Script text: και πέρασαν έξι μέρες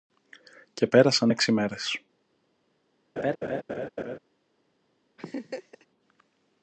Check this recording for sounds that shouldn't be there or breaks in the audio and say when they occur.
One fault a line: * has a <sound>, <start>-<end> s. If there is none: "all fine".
* has a laugh, 3.2-4.2 s
* has a laugh, 5.2-5.9 s